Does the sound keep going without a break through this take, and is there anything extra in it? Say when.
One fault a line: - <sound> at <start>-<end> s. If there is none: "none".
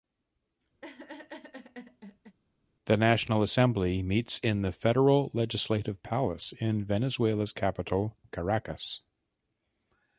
- laugh at 0.8-2.4 s